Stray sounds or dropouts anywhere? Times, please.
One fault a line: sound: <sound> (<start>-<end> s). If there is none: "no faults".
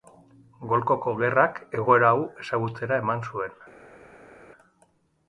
no faults